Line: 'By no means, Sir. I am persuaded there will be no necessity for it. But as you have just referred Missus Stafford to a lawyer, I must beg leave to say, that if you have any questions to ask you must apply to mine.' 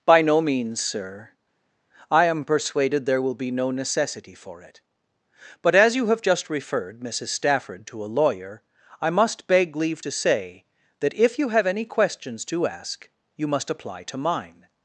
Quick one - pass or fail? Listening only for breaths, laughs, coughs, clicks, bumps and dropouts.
pass